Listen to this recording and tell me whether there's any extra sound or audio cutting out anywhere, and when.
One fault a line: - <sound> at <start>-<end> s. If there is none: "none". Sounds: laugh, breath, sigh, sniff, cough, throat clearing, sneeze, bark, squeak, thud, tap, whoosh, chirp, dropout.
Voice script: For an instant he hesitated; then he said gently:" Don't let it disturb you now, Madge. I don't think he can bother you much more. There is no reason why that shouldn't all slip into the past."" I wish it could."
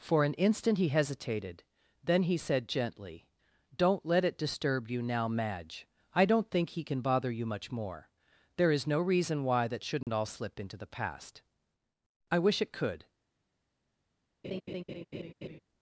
- dropout at 10.0-10.1 s
- laugh at 14.4-15.6 s